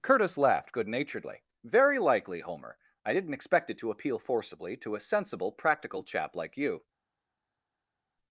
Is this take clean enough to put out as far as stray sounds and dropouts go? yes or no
yes